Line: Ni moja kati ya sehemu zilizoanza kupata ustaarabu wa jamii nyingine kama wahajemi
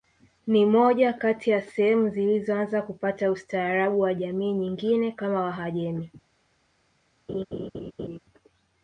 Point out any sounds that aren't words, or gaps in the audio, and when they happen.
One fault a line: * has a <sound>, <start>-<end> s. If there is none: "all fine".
* has a laugh, 7.3-8.2 s